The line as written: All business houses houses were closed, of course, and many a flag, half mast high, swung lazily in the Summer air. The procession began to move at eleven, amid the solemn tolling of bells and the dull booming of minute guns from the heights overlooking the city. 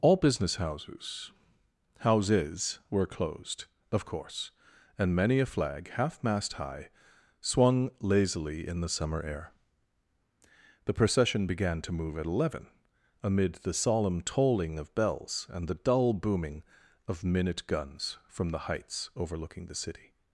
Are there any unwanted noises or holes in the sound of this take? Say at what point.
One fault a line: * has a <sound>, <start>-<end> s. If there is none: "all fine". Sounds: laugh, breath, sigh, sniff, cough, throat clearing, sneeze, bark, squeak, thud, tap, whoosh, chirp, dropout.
all fine